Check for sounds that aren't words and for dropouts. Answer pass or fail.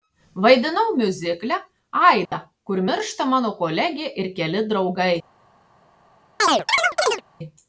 fail